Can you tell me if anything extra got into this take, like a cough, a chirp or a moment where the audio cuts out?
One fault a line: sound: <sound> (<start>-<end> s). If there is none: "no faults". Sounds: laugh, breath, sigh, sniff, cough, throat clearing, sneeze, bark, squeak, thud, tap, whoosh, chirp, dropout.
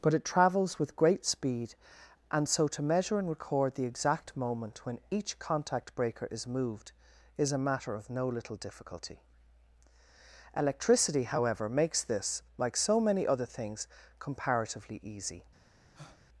sound: breath (15.9-16.2 s)